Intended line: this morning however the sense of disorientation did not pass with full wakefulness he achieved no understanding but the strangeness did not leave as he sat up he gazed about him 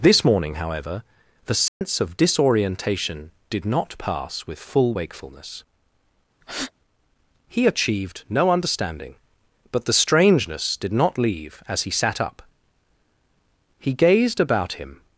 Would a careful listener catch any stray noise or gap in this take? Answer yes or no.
yes